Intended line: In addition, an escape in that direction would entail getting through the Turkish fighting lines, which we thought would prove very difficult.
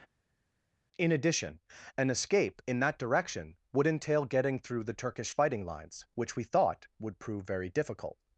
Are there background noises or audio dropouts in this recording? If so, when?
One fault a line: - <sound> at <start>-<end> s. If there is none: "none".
none